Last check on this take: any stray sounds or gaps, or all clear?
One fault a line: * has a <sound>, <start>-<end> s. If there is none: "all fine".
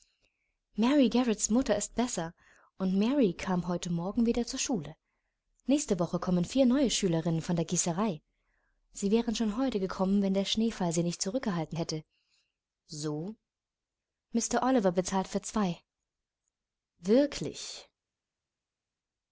all fine